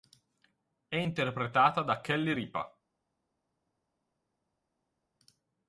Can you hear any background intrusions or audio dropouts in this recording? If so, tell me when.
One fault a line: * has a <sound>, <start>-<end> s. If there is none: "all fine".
all fine